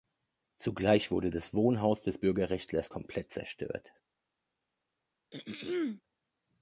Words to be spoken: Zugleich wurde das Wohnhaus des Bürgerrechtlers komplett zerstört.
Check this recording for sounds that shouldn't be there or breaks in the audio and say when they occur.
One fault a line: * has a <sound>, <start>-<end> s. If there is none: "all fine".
* has a throat clearing, 5.3-6.0 s